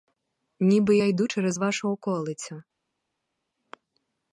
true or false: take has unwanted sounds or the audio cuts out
false